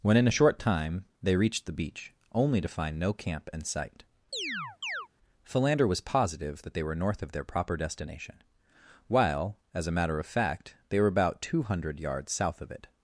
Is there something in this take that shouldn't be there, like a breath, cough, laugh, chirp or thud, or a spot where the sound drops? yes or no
yes